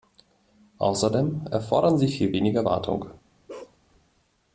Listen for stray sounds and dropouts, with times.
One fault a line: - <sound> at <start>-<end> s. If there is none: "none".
- bark at 3.5-3.8 s